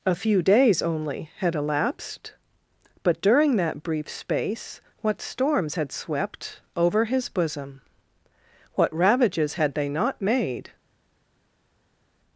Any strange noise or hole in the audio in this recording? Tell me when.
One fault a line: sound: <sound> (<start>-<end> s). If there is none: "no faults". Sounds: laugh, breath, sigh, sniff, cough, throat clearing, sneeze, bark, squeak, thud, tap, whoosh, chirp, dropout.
no faults